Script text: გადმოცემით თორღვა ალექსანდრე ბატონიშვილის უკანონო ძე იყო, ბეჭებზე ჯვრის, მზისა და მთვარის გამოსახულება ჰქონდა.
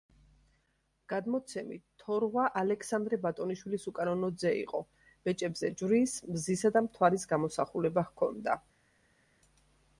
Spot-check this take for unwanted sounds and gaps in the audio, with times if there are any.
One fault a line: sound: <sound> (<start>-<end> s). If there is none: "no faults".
no faults